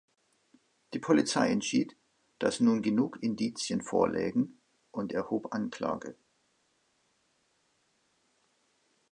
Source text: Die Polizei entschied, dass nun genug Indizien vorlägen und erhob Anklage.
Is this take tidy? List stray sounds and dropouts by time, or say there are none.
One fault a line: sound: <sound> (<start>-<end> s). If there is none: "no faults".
no faults